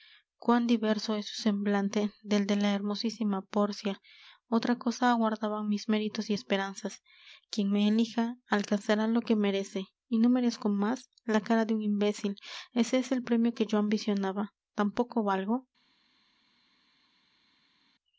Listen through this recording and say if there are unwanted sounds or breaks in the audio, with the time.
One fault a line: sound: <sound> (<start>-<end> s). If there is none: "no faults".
no faults